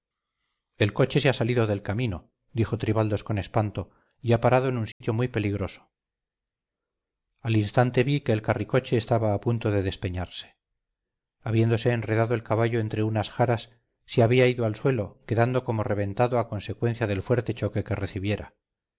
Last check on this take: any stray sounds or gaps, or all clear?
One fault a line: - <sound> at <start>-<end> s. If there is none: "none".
- dropout at 4.9-5.0 s